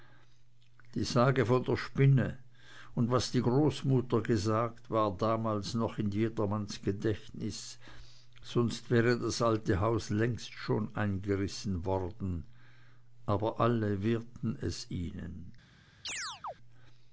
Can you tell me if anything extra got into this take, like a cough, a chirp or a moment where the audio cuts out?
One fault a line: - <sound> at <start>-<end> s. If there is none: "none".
- chirp at 16.0-16.5 s